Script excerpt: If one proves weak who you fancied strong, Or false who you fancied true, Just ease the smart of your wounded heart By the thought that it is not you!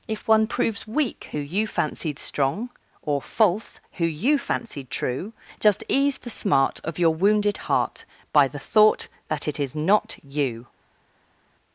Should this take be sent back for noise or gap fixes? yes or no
no